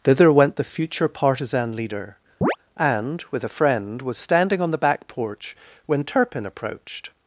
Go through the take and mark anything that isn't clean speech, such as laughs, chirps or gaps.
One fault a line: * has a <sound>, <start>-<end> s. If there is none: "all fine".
* has a chirp, 2.4-2.6 s